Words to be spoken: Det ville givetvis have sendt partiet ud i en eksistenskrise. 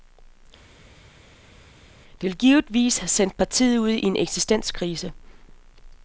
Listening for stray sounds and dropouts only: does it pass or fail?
pass